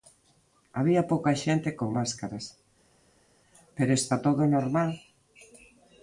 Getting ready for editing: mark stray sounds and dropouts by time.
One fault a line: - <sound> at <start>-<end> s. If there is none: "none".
none